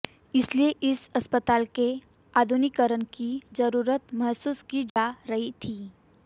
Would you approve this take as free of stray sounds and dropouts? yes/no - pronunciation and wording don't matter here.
no